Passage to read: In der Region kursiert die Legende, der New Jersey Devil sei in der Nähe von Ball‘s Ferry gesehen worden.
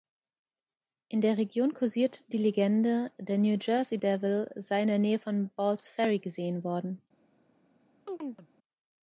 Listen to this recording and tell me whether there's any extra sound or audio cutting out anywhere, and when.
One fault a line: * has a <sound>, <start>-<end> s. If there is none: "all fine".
* has a chirp, 8.1-8.5 s